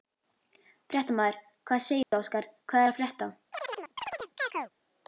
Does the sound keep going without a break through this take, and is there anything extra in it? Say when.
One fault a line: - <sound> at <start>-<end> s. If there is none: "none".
- dropout at 2.0-2.1 s
- chirp at 3.5-4.7 s